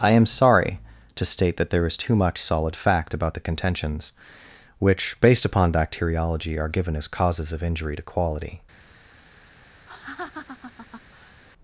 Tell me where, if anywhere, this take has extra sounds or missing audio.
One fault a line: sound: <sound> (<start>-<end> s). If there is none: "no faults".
sound: laugh (9.9-11.4 s)